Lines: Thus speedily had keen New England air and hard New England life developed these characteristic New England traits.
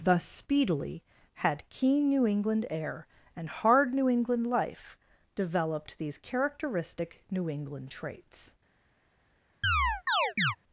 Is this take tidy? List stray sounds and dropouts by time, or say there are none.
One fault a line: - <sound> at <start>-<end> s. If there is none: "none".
- chirp at 9.6-10.6 s